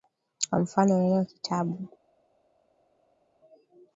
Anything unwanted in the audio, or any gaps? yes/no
no